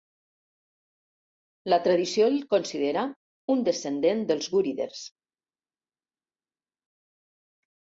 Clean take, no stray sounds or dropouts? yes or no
yes